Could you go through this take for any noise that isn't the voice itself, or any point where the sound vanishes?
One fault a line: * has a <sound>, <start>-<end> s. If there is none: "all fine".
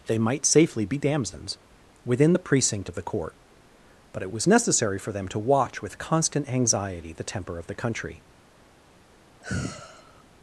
* has a sigh, 9.4-10.2 s